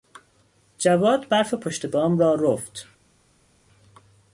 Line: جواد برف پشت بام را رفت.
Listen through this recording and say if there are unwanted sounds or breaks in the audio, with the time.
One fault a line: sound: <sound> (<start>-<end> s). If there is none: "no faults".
no faults